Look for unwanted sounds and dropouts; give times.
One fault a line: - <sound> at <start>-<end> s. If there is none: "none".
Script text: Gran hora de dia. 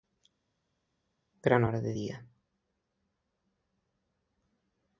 none